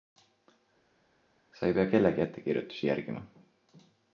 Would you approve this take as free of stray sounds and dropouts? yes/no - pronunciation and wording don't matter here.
yes